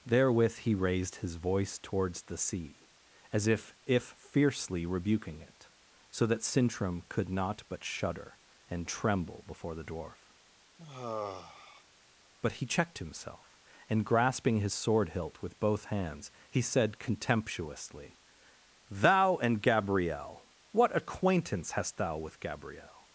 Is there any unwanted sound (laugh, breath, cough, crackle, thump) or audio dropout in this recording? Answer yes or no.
yes